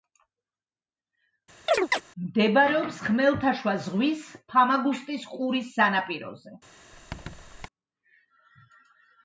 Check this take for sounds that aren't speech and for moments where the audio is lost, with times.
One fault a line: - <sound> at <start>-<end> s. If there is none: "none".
- chirp at 1.7-2.0 s
- squeak at 6.9-7.7 s